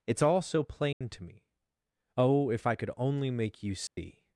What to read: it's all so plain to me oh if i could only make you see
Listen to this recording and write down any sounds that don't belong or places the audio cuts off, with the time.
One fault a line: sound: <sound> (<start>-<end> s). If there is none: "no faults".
sound: dropout (0.9-1.0 s)
sound: dropout (3.9-4.0 s)